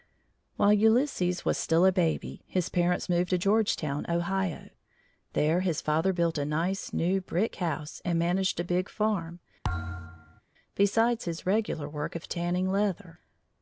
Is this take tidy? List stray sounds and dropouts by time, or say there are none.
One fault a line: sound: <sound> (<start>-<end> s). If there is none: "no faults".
sound: thud (9.6-10.4 s)